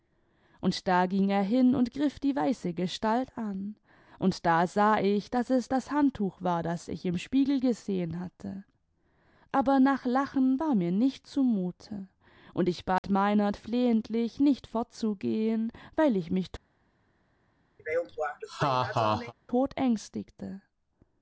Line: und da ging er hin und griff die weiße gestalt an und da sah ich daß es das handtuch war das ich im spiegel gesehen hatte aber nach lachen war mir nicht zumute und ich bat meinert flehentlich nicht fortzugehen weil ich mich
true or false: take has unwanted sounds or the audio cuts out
true